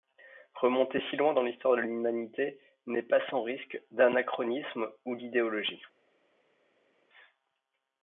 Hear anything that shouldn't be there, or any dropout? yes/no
no